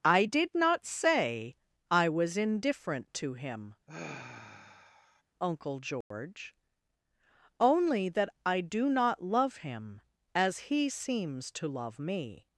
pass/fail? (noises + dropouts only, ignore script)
fail